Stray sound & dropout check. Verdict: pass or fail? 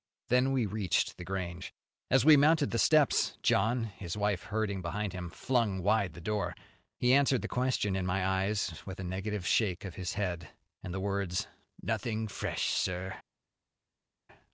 pass